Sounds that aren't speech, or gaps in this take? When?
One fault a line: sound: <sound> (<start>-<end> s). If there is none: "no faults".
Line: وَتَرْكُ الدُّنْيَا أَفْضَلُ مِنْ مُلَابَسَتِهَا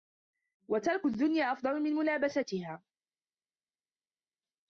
no faults